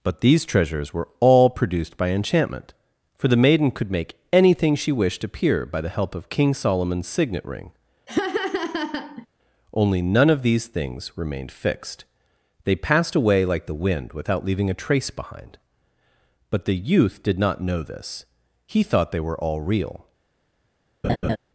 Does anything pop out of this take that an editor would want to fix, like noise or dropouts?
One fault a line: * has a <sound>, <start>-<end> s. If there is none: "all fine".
* has a laugh, 8.1-9.3 s
* has a laugh, 21.0-21.4 s